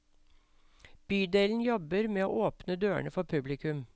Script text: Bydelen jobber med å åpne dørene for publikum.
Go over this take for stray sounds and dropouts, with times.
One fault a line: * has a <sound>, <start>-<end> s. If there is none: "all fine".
all fine